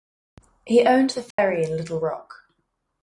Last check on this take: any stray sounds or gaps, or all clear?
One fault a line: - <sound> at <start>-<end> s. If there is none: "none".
- dropout at 1.3-1.4 s